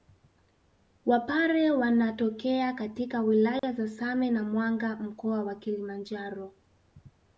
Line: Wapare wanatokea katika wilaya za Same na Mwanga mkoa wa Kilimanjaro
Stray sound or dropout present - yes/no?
yes